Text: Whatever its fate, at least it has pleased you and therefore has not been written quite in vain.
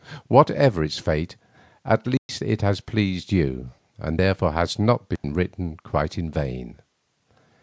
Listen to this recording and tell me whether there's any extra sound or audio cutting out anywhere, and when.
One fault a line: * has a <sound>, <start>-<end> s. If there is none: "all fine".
* has a dropout, 2.2-2.3 s
* has a dropout, 5.2-5.2 s